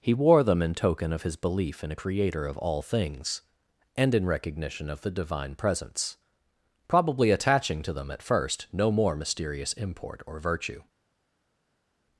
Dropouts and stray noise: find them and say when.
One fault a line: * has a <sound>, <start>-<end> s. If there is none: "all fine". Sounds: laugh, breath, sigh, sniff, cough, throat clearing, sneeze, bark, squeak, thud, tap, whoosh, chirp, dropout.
all fine